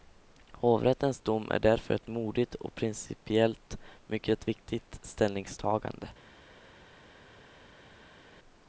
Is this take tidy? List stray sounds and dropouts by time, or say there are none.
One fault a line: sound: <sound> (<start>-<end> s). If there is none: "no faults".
no faults